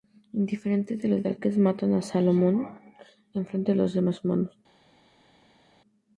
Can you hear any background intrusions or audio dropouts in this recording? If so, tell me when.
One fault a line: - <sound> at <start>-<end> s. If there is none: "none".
none